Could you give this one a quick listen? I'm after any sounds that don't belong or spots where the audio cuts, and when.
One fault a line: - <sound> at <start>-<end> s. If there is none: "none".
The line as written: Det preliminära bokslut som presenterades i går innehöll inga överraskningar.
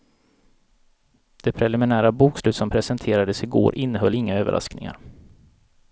none